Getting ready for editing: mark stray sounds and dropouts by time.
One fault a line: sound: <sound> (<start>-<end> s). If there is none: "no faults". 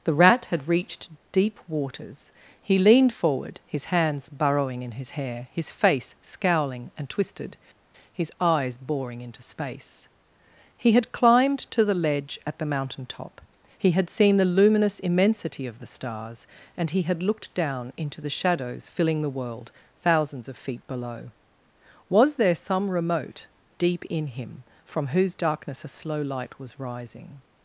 no faults